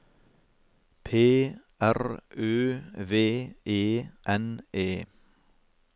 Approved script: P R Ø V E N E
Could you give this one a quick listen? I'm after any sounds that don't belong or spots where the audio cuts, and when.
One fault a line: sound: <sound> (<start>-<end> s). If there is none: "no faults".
no faults